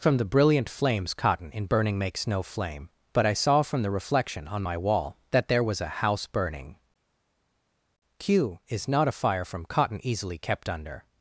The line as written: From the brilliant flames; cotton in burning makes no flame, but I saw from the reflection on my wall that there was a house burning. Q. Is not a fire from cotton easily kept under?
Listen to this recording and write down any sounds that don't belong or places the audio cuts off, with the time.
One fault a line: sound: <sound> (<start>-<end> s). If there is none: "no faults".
no faults